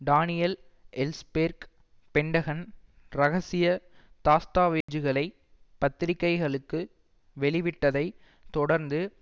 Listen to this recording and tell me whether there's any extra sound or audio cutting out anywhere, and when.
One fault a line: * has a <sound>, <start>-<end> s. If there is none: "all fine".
* has a dropout, 4.8-4.9 s